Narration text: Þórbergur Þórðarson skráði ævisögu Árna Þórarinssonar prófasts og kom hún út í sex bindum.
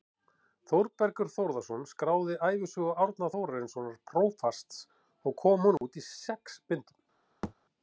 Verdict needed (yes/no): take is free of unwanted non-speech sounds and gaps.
no